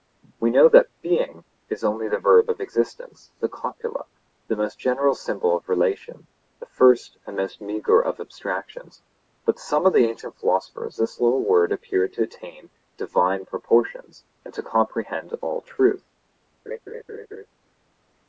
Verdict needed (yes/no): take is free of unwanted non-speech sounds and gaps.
no